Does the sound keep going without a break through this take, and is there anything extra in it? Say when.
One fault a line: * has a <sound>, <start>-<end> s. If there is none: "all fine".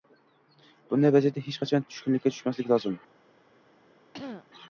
* has a throat clearing, 4.1-4.5 s